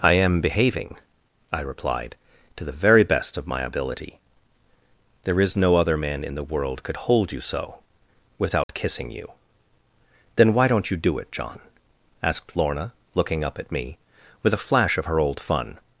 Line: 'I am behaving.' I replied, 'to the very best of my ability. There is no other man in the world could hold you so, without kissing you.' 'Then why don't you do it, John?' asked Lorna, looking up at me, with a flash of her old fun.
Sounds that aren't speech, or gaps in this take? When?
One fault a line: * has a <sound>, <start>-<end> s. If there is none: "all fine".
* has a dropout, 8.6-8.7 s